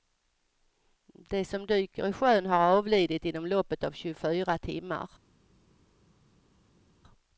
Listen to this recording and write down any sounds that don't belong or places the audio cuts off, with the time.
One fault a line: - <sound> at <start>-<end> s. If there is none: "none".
none